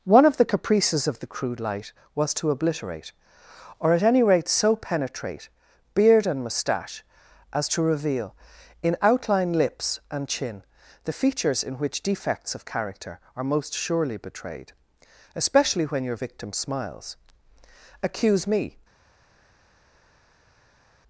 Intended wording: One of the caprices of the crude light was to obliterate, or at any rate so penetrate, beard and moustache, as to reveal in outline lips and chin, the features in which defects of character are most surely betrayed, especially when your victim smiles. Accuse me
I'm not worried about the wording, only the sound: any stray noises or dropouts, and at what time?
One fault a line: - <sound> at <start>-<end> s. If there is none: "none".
none